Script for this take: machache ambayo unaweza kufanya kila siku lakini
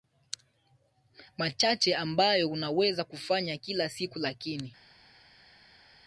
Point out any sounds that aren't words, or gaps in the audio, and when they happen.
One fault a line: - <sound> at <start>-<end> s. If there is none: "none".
none